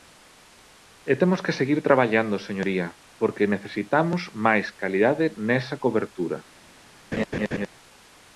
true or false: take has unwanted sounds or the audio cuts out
true